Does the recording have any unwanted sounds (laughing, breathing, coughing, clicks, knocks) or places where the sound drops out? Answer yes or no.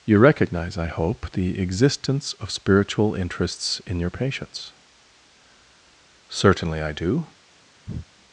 yes